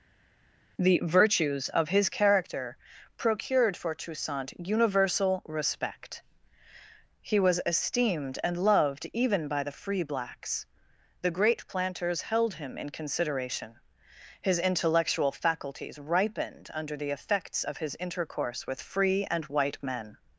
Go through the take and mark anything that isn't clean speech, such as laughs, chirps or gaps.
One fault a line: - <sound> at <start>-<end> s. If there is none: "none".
none